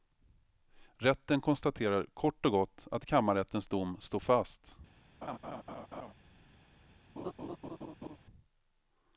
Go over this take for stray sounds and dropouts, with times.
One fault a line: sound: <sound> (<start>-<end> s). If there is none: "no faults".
sound: laugh (5.2-6.1 s)
sound: laugh (7.2-8.2 s)